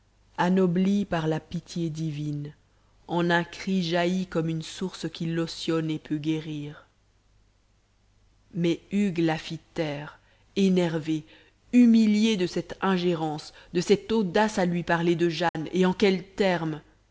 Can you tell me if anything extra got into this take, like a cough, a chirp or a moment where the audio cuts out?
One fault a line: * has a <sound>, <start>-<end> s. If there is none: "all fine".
* has a dropout, 15.5-15.5 s